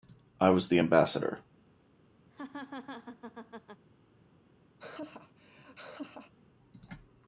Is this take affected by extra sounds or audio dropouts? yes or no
yes